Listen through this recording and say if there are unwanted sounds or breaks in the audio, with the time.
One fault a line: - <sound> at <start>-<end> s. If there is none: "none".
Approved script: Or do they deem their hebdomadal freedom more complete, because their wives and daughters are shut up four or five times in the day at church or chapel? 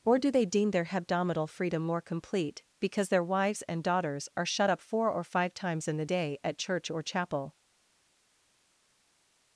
none